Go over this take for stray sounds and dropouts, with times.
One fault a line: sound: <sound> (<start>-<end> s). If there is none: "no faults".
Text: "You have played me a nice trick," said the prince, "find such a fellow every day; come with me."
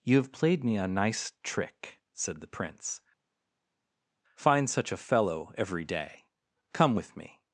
no faults